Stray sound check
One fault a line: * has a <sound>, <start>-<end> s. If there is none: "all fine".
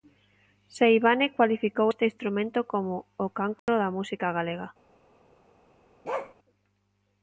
* has a dropout, 3.6-3.7 s
* has a bark, 6.0-6.3 s